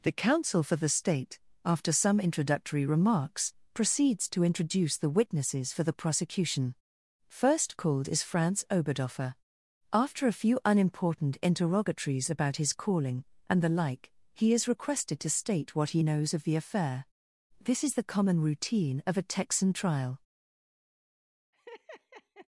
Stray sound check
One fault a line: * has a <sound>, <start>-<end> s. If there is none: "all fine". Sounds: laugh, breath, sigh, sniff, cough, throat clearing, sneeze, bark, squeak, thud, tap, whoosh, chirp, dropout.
* has a laugh, 21.5-22.5 s